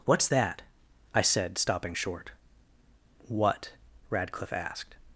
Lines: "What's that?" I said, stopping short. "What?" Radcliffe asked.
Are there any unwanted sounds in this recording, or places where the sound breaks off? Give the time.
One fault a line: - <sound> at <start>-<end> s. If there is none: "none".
none